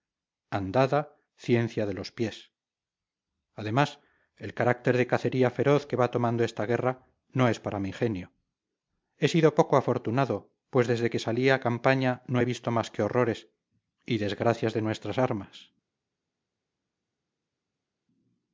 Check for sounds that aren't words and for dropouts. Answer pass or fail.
pass